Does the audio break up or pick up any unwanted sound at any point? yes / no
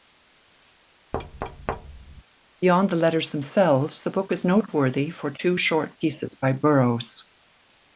yes